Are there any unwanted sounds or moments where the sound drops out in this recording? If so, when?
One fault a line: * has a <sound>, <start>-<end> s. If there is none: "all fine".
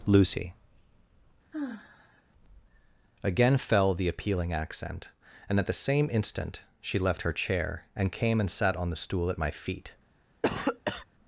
* has a sigh, 1.5-2.2 s
* has a cough, 10.4-11.1 s